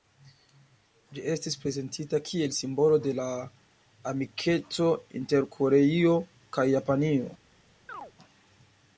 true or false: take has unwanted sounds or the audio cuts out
true